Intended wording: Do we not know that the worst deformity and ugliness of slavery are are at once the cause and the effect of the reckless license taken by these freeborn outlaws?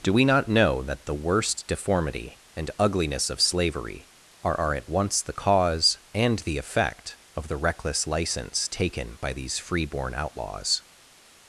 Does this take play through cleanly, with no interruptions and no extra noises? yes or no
yes